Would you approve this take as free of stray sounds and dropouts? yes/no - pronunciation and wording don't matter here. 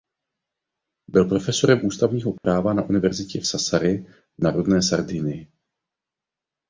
no